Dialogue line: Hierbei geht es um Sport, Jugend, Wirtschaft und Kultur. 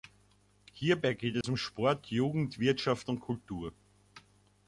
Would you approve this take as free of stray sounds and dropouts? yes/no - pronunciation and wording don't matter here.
no